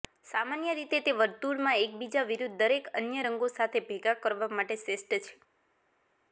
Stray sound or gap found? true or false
false